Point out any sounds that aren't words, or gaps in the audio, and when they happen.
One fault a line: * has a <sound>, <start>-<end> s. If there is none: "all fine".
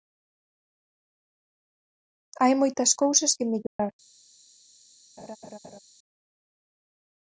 * has a dropout, 3.7-3.8 s
* has a laugh, 5.2-5.8 s